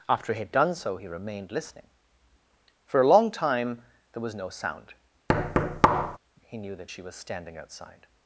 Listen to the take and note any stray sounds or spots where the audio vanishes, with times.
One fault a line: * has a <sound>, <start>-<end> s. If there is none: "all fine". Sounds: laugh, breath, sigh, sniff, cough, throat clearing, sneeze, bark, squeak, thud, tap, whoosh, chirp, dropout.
* has a thud, 5.3-6.2 s